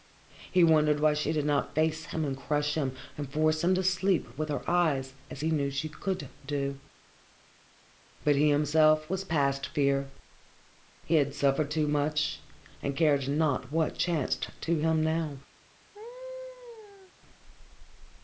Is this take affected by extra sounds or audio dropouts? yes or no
yes